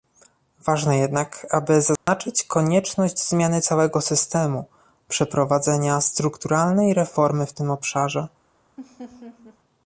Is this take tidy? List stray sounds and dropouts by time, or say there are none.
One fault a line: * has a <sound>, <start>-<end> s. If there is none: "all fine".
* has a dropout, 2.0-2.1 s
* has a laugh, 8.8-9.6 s